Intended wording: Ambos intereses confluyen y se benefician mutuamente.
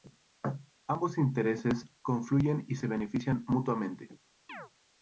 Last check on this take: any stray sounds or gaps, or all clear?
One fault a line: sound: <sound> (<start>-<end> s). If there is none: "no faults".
sound: chirp (4.5-4.7 s)